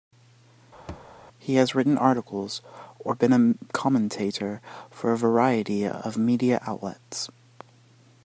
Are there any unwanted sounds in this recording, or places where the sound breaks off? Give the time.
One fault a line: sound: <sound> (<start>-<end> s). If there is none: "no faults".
sound: thud (0.9-1.1 s)